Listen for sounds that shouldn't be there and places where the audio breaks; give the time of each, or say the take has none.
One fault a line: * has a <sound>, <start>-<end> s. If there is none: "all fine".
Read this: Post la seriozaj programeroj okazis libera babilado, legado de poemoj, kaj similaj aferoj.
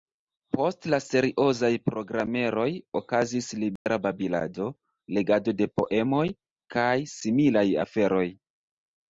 * has a dropout, 3.8-3.9 s